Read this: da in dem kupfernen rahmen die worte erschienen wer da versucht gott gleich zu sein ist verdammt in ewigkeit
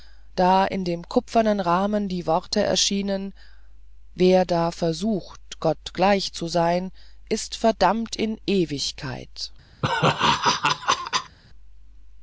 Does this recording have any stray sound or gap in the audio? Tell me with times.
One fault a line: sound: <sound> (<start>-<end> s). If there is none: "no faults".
sound: laugh (9.8-11.4 s)